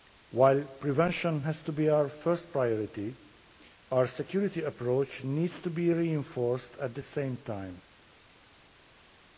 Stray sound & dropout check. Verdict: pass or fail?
pass